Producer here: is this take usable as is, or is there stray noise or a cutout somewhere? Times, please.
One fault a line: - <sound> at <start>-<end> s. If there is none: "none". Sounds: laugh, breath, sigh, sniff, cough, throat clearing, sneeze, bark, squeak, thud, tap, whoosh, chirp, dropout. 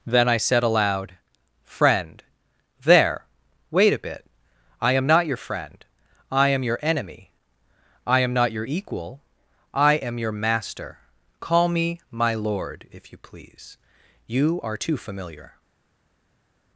none